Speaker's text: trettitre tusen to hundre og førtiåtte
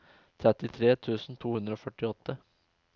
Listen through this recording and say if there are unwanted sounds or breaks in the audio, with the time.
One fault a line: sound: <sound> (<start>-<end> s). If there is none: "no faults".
no faults